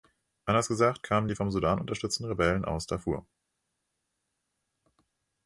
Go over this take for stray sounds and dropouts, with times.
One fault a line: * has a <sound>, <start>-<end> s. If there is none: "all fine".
all fine